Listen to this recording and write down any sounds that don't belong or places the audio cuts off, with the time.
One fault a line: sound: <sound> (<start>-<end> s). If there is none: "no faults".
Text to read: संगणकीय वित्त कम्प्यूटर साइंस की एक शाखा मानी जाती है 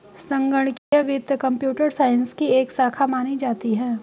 sound: dropout (0.8-0.9 s)